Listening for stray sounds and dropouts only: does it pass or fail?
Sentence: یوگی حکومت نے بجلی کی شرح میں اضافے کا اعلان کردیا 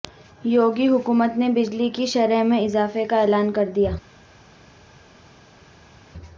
pass